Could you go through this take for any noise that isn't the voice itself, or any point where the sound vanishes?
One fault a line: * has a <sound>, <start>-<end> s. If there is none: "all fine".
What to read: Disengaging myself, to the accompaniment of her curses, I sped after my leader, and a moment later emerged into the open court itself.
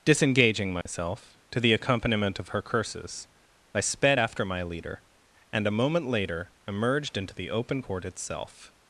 * has a dropout, 0.8-0.9 s